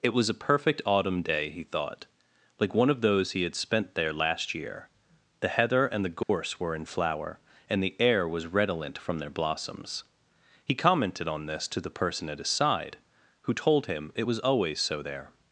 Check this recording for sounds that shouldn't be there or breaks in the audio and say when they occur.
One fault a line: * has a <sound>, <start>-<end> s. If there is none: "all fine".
* has a dropout, 6.2-6.3 s